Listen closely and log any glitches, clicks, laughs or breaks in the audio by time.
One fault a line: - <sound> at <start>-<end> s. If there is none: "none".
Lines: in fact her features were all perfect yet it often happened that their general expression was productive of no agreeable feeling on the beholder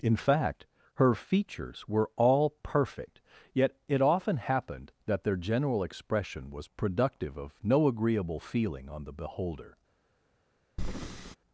- breath at 10.8-11.4 s